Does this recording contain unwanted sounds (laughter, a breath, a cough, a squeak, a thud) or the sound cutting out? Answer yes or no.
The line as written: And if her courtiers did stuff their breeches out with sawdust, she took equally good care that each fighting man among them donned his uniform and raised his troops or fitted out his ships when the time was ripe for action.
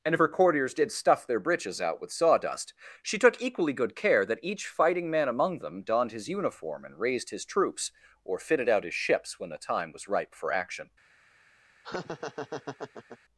yes